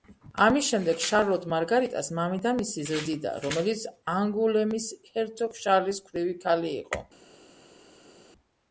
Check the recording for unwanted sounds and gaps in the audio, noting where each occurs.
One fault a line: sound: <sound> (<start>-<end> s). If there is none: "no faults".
no faults